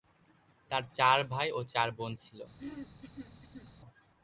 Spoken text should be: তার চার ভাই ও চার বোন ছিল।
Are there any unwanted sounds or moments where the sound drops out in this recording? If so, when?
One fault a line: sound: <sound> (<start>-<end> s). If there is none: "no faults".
sound: throat clearing (2.6-3.7 s)